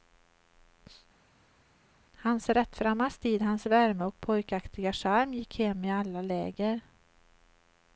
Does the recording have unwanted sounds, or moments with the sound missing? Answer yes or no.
no